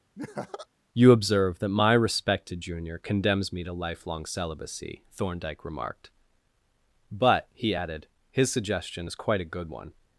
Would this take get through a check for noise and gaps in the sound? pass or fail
fail